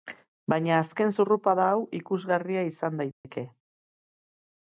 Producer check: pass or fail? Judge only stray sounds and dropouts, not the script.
fail